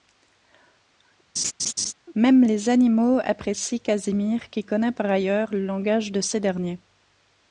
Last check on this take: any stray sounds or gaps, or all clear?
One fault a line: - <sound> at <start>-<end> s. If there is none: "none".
- laugh at 1.4-1.9 s